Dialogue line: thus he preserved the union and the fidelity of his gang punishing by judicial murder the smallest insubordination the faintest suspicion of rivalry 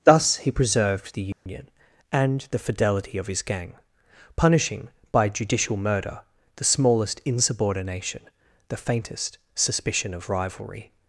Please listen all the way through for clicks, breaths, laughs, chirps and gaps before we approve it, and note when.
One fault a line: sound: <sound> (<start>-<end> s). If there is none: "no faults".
sound: dropout (1.3-1.5 s)